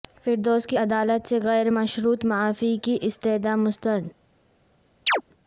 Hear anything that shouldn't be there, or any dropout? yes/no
yes